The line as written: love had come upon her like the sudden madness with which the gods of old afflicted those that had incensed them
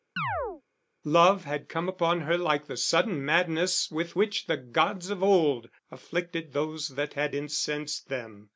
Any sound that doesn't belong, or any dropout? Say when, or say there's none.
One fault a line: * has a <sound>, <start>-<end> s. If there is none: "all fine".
* has a chirp, 0.2-0.6 s